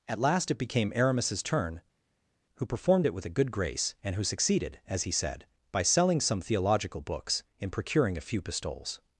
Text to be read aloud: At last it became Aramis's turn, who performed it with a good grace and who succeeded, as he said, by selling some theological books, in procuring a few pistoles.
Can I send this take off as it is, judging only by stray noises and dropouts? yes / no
yes